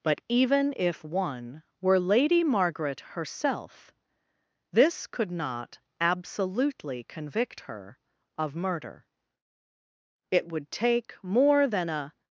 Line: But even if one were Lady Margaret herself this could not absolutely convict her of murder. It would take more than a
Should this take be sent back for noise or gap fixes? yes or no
no